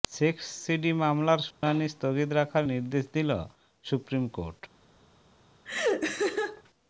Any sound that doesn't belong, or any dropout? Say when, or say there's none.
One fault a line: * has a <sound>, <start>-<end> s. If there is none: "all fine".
* has a dropout, 1.5-1.6 s
* has a laugh, 5.6-6.6 s